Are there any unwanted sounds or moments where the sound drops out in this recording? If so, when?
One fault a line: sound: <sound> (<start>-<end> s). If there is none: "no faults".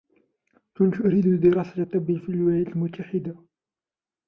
no faults